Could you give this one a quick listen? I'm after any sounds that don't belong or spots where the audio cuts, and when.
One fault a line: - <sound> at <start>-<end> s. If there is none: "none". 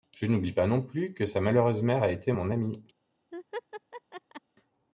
- laugh at 3.3-4.4 s